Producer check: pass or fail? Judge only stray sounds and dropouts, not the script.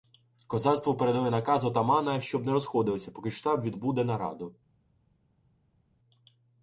pass